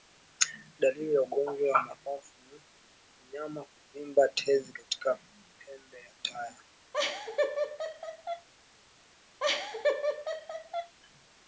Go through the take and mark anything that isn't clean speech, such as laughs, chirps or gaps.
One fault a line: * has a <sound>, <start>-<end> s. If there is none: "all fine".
* has a laugh, 6.9-8.5 s
* has a laugh, 9.4-10.9 s